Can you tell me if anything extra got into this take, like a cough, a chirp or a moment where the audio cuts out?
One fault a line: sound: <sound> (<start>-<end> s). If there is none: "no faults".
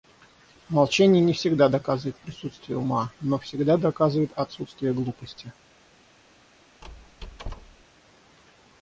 sound: squeak (6.8-7.9 s)